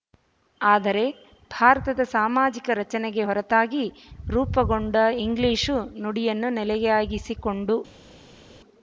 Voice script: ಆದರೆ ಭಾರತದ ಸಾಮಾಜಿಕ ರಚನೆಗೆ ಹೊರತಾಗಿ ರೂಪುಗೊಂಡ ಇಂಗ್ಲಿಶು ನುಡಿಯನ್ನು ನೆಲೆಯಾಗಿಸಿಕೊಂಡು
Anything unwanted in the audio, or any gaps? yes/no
no